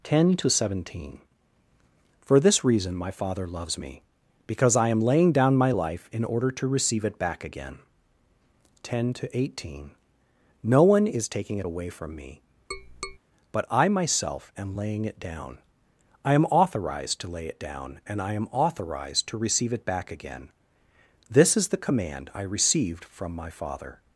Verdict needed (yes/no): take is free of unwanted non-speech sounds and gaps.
no